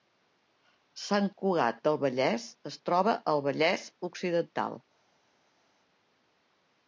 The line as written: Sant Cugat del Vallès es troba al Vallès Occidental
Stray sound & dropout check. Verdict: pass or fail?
pass